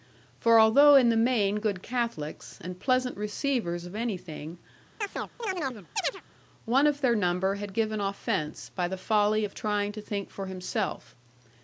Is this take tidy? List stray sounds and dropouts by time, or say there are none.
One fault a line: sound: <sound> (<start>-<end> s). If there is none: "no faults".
sound: chirp (5.0-6.2 s)